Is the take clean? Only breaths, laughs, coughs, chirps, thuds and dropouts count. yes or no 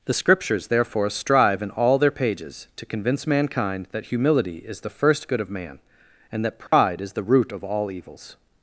no